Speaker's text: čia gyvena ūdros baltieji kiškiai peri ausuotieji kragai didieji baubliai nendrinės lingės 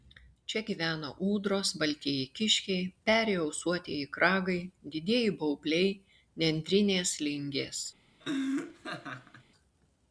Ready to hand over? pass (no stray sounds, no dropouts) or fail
fail